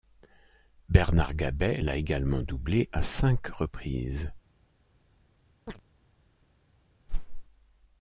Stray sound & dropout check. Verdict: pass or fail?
fail